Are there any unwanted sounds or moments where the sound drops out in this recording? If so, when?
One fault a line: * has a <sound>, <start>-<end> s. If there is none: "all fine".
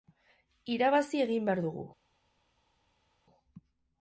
all fine